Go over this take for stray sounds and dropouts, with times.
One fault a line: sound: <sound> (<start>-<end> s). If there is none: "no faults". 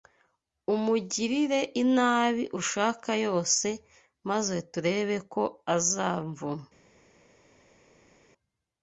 no faults